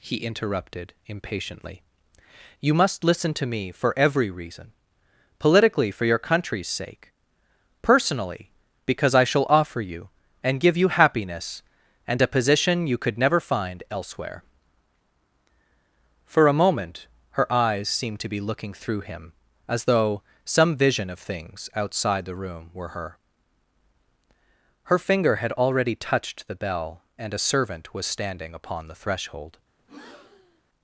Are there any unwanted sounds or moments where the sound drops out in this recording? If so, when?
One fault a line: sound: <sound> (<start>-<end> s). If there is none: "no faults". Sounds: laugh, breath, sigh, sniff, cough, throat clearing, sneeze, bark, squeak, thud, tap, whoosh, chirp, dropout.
sound: breath (29.8-30.6 s)